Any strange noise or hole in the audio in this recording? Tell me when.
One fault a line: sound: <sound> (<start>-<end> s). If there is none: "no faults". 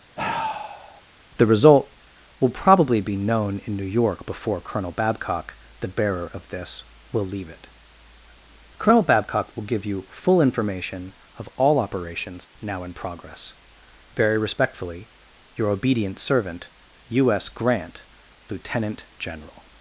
sound: sigh (0.2-1.0 s)